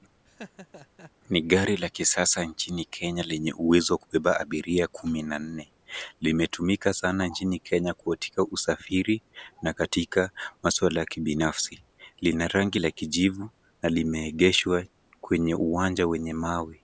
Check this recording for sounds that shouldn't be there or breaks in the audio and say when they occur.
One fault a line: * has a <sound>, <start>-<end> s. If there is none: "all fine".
* has a laugh, 0.2-1.1 s